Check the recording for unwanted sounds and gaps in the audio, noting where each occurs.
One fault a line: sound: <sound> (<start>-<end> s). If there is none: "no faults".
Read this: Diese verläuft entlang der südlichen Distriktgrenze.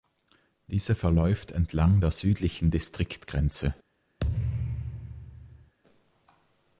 sound: thud (4.2-5.7 s)